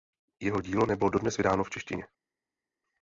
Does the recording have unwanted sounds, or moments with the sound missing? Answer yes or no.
no